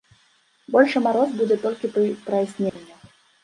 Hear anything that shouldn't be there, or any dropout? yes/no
yes